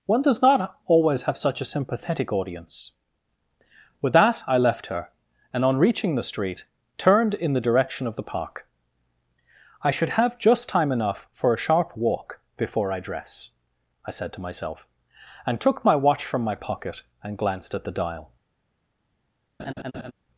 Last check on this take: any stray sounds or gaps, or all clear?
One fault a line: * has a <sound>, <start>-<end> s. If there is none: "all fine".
* has a laugh, 19.6-20.1 s